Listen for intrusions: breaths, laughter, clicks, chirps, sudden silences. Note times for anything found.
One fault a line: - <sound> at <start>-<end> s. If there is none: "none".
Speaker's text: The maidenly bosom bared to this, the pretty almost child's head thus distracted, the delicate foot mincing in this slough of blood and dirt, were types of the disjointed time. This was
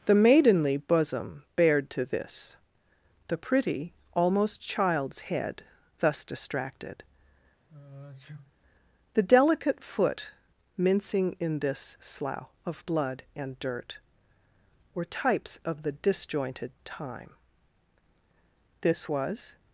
- sneeze at 7.7-8.5 s